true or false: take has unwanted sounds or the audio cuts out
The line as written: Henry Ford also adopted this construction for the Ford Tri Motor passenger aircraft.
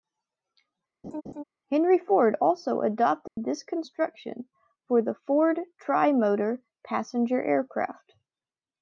true